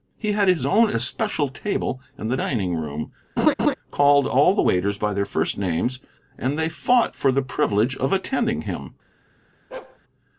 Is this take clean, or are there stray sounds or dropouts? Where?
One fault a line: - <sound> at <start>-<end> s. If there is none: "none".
- laugh at 3.4-3.7 s
- bark at 9.7-10.0 s